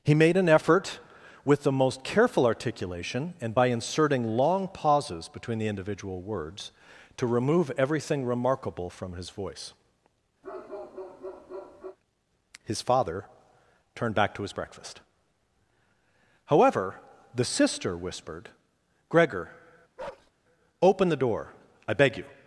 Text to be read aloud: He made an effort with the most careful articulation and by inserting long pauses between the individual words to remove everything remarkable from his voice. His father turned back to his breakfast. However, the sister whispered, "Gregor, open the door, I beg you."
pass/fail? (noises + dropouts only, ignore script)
fail